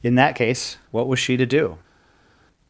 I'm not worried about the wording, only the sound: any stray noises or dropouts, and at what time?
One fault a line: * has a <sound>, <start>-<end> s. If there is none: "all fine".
all fine